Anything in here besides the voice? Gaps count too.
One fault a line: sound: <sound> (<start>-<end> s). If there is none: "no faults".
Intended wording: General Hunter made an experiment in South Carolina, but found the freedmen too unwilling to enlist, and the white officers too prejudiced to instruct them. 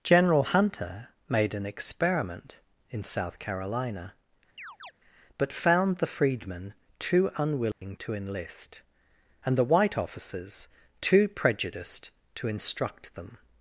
sound: chirp (4.6-4.9 s)
sound: dropout (7.7-7.8 s)